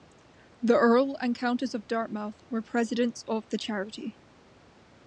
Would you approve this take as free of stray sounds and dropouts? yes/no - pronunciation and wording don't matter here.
yes